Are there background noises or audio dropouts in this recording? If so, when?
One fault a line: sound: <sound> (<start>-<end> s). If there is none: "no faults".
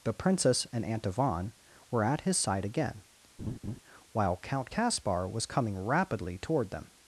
sound: laugh (3.4-3.8 s)